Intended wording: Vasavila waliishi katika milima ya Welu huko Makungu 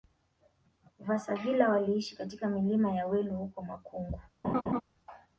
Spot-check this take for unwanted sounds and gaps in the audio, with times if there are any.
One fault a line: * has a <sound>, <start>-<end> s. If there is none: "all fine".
* has a laugh, 4.4-4.8 s